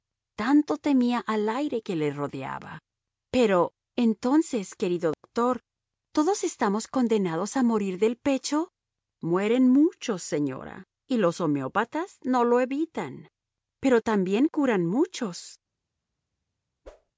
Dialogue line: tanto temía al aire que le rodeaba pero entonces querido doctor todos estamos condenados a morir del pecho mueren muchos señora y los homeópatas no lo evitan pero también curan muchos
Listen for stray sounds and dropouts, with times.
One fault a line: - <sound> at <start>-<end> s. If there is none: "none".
- dropout at 5.1-5.2 s
- whoosh at 16.8-17.1 s